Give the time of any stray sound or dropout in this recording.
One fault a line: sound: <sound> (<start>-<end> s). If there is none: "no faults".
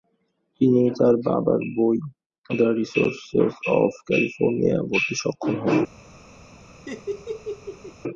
sound: laugh (6.9-8.0 s)